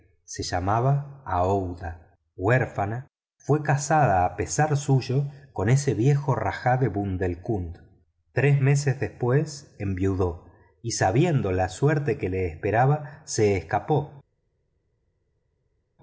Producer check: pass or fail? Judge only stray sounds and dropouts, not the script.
pass